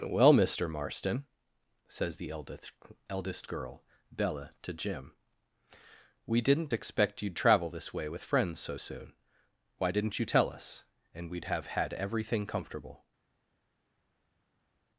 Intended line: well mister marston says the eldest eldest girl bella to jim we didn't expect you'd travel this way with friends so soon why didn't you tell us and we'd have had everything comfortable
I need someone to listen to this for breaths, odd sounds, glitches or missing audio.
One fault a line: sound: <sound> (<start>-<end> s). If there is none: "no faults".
no faults